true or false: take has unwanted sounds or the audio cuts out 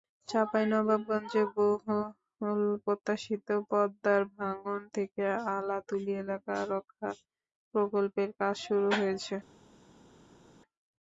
false